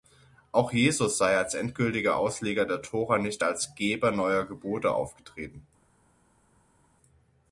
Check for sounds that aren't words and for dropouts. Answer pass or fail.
pass